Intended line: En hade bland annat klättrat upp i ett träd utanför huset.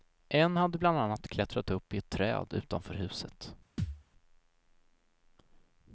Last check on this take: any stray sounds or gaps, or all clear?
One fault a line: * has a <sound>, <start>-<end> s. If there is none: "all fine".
* has a thud, 3.8-4.0 s